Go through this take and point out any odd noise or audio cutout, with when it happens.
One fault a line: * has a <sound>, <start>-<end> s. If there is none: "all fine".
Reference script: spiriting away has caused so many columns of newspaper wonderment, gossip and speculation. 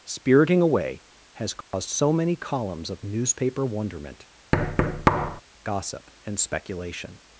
* has a dropout, 1.6-1.7 s
* has a thud, 4.5-5.4 s